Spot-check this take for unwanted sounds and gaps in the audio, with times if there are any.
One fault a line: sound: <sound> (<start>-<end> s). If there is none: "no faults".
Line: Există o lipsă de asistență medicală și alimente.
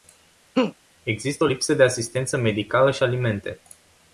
sound: laugh (0.5-0.7 s)